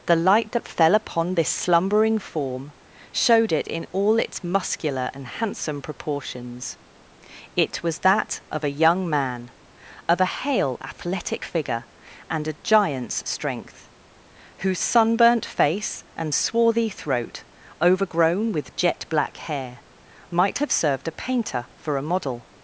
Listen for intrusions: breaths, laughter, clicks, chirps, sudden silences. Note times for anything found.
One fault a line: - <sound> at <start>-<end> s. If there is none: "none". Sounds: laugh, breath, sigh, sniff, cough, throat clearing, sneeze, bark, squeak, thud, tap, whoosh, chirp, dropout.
none